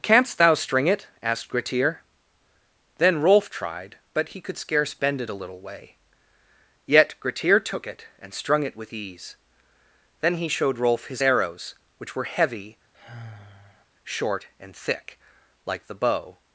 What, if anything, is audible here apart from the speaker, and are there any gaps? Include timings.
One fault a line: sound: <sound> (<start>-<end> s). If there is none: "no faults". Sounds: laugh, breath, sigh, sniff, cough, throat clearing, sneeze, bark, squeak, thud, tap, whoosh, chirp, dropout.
sound: sigh (12.9-13.9 s)